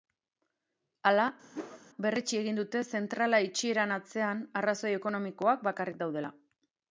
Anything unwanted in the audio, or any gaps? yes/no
yes